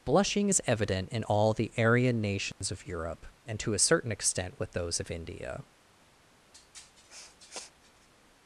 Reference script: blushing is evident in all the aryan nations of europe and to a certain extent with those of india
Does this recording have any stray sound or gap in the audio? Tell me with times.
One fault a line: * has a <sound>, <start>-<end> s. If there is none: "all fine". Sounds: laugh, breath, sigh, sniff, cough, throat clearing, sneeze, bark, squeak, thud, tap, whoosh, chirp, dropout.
* has a dropout, 2.5-2.6 s
* has a sniff, 6.5-8.1 s